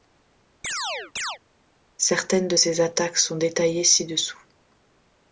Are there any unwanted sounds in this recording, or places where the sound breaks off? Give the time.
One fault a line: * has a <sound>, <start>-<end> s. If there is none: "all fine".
* has a chirp, 0.6-1.4 s